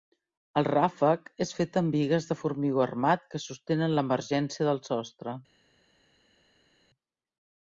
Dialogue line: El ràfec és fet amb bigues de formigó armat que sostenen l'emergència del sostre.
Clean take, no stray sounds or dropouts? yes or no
yes